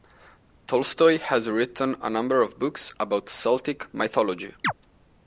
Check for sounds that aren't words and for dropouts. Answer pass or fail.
fail